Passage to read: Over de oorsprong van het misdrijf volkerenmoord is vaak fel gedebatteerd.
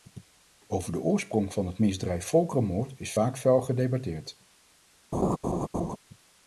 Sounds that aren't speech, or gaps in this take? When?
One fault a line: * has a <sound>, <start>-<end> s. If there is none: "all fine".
* has a laugh, 5.1-6.0 s